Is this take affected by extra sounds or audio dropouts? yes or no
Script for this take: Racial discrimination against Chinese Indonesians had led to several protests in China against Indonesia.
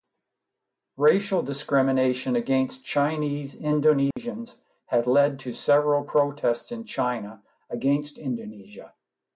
yes